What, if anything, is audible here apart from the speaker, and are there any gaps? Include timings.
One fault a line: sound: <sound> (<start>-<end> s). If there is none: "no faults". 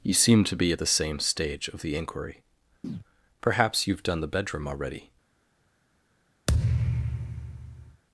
sound: chirp (2.8-3.0 s)
sound: thud (6.5-8.0 s)